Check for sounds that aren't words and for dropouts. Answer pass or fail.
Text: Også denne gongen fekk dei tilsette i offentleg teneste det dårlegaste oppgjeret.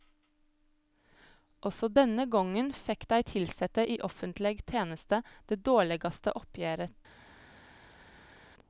pass